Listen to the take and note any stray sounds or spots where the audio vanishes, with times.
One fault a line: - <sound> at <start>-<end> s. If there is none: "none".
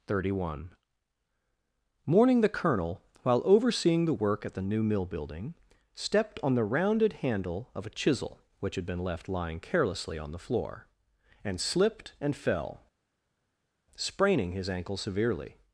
none